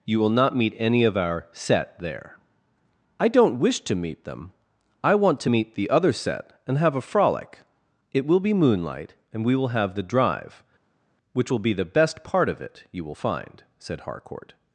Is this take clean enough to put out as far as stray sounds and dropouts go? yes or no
yes